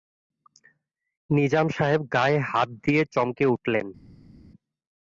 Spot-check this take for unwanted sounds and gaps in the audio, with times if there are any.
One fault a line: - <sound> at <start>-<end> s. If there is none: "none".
none